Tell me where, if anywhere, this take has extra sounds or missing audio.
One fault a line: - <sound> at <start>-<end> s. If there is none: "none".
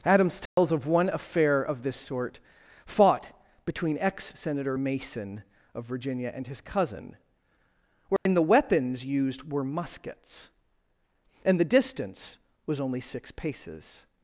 - dropout at 0.5-0.6 s
- dropout at 8.2-8.3 s